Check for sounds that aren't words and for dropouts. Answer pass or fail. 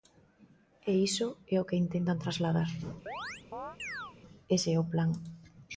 fail